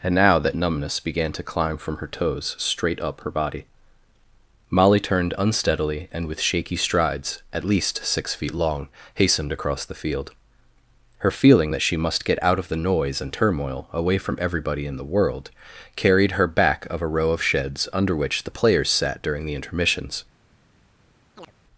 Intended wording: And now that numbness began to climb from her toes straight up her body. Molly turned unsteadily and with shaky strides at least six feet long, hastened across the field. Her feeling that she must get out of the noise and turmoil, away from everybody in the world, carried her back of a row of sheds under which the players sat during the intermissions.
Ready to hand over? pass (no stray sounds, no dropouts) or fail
fail